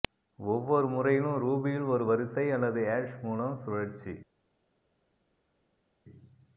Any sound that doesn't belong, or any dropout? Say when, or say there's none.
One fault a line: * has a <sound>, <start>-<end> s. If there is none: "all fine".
all fine